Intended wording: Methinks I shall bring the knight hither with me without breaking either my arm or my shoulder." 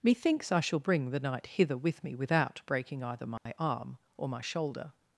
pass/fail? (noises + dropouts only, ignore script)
fail